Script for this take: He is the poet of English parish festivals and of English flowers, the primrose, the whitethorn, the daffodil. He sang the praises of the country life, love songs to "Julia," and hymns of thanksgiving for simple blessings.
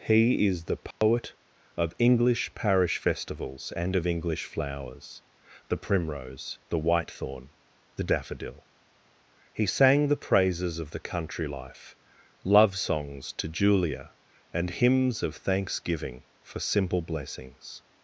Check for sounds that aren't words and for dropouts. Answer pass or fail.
fail